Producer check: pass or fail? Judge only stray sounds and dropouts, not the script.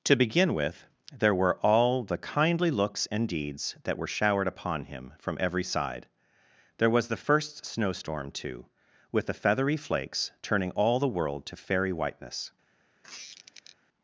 fail